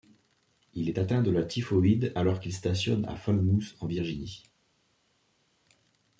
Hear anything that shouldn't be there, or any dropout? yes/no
no